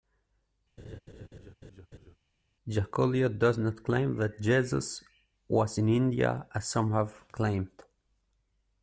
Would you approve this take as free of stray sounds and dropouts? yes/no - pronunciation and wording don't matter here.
no